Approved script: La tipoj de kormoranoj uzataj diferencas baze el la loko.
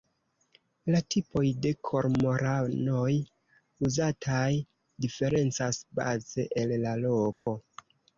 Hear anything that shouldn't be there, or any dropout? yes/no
yes